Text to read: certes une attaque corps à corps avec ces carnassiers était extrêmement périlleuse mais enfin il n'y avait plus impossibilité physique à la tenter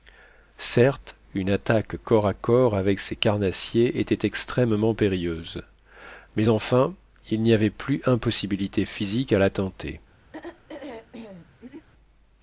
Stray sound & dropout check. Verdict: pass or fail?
fail